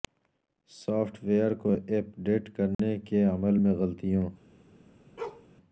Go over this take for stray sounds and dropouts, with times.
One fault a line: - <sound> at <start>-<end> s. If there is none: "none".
- dropout at 2.7-2.8 s
- bark at 5.2-5.5 s